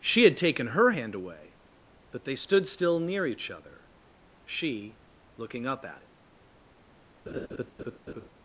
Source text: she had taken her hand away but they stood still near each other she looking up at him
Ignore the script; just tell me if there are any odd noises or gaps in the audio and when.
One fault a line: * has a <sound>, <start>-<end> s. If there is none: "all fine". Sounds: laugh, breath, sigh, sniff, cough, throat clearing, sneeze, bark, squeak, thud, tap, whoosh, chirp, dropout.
* has a laugh, 7.3-8.3 s